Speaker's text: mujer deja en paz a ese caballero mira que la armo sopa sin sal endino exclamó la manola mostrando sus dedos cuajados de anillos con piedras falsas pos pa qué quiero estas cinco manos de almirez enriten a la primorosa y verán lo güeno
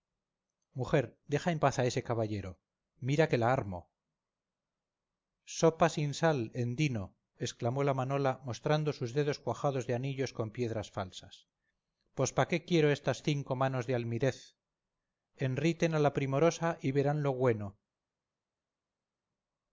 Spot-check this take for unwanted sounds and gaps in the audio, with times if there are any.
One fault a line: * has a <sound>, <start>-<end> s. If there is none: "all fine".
all fine